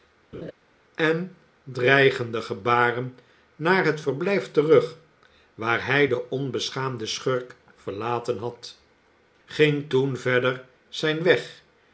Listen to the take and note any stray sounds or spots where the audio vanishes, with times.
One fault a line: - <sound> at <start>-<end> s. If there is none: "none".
- laugh at 0.3-0.5 s